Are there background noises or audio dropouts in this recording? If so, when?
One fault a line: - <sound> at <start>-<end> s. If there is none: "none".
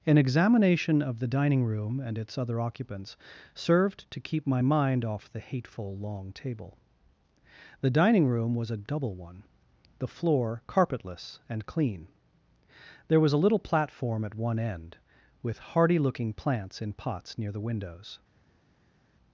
none